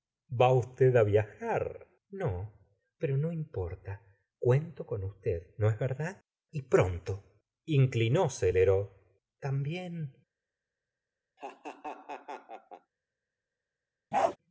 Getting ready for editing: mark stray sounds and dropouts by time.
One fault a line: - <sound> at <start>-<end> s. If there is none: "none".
- laugh at 11.4-12.9 s
- bark at 14.1-14.4 s